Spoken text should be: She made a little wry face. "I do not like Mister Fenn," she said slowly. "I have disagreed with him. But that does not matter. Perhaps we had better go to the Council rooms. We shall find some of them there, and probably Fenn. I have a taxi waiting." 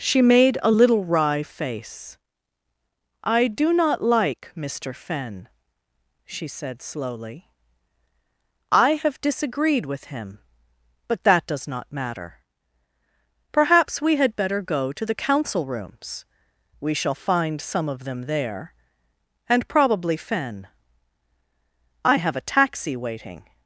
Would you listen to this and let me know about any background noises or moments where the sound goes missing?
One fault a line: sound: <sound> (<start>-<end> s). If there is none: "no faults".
no faults